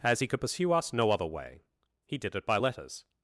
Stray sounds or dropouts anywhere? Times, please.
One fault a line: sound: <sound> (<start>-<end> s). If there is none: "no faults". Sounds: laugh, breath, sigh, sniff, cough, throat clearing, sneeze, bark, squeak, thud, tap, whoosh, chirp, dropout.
no faults